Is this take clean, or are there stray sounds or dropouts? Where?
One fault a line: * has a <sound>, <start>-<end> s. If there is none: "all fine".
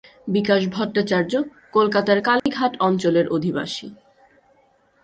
* has a dropout, 2.4-2.5 s